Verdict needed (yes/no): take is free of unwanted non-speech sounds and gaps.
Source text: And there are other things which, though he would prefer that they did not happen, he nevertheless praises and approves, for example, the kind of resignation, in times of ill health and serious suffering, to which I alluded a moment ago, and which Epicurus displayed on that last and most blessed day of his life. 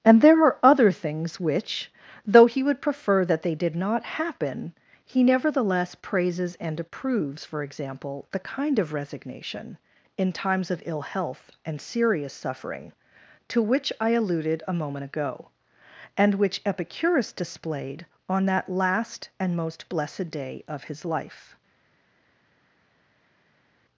yes